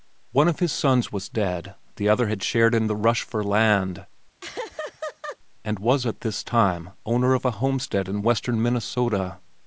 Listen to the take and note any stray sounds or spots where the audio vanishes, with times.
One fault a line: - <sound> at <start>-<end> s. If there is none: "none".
- laugh at 4.4-5.4 s